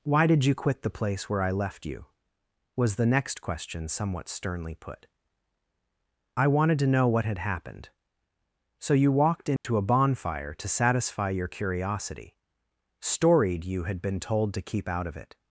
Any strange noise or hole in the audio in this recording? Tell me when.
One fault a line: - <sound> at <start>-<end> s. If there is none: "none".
- dropout at 9.6-9.6 s